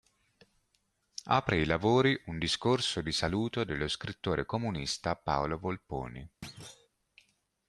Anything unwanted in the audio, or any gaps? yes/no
yes